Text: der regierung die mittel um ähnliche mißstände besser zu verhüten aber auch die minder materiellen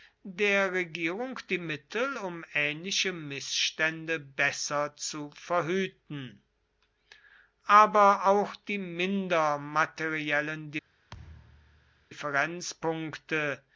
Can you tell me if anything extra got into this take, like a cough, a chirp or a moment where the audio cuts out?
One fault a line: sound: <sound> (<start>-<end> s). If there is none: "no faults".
sound: thud (11.1-12.1 s)